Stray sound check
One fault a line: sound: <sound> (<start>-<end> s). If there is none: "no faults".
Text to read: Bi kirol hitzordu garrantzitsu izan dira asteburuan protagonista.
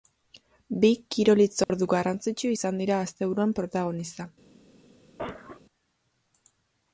sound: dropout (1.6-1.7 s)
sound: cough (5.2-5.6 s)